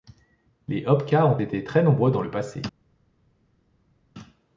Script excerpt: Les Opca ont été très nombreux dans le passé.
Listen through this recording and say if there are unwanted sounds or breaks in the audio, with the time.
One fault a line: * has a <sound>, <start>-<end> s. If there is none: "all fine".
all fine